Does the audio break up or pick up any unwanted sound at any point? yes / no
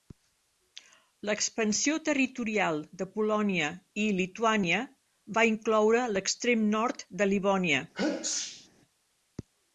yes